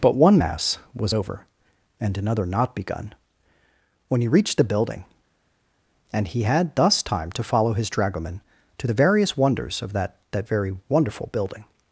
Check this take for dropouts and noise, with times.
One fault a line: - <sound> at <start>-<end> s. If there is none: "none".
none